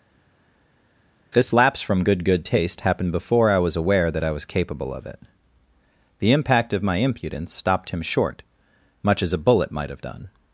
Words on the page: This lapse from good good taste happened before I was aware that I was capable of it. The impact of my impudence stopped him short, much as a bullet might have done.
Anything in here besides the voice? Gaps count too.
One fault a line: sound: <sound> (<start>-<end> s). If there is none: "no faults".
no faults